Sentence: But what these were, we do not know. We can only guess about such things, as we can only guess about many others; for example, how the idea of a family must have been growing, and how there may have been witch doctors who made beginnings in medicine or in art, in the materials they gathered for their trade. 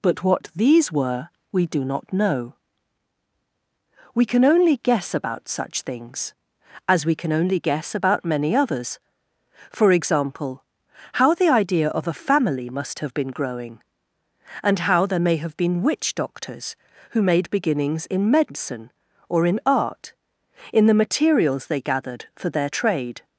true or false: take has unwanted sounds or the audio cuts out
false